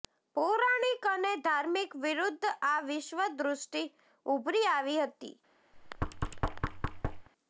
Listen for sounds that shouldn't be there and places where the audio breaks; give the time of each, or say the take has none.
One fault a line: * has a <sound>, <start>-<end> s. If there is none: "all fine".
* has a thud, 5.7-7.3 s